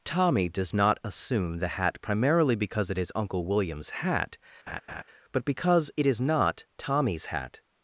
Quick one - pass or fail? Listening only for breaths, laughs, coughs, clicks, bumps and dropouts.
fail